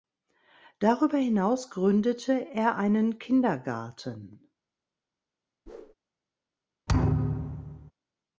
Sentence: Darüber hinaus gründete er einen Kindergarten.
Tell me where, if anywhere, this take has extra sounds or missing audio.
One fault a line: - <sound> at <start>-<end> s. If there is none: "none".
- whoosh at 5.7-5.9 s
- thud at 6.9-7.9 s